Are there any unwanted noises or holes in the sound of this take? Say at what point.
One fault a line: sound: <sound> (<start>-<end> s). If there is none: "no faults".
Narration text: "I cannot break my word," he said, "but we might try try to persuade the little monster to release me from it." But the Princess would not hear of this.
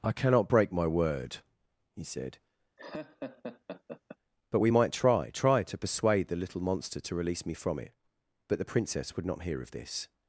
sound: laugh (2.8-4.2 s)